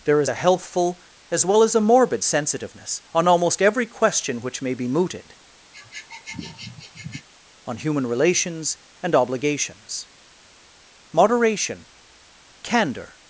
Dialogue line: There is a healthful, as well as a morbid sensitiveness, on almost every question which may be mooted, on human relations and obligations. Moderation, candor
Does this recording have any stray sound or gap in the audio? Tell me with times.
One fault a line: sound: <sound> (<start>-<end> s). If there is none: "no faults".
sound: sniff (5.7-7.3 s)